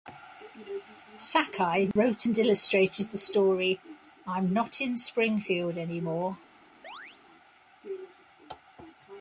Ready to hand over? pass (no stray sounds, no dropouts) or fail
fail